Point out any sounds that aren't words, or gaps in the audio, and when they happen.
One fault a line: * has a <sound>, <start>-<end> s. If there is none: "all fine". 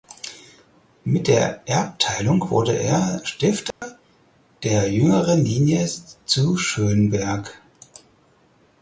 * has a dropout, 3.7-3.8 s